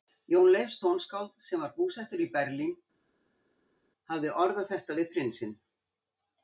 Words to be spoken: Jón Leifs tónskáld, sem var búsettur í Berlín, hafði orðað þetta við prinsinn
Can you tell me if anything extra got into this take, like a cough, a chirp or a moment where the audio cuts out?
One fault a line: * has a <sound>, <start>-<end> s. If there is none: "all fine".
all fine